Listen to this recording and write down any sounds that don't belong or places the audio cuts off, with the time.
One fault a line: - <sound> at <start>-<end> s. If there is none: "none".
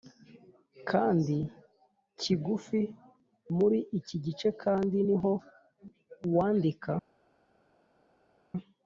none